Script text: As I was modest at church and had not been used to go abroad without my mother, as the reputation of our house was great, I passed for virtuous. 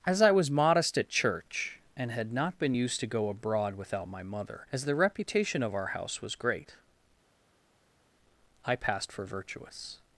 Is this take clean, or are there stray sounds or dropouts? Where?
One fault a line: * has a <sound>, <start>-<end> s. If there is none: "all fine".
all fine